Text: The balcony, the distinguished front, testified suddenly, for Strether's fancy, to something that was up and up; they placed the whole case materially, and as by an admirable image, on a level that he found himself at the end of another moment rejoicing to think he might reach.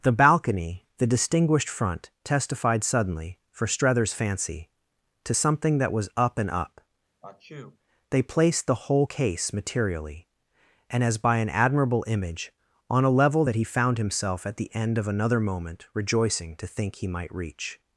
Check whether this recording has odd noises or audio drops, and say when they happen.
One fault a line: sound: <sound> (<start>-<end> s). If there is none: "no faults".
sound: sneeze (7.2-7.8 s)